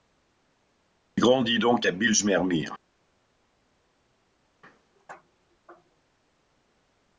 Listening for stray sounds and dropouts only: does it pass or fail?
pass